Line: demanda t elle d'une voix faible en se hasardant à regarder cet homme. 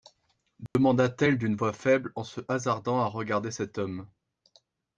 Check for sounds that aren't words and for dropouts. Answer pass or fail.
fail